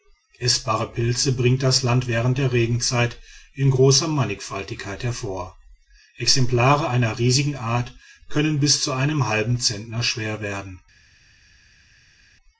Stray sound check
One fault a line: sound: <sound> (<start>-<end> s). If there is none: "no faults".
no faults